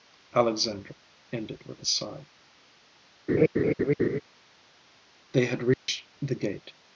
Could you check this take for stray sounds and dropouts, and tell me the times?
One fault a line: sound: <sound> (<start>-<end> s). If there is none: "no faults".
sound: laugh (3.3-4.2 s)
sound: dropout (5.7-5.9 s)